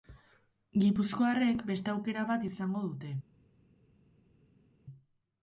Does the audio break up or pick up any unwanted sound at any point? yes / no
no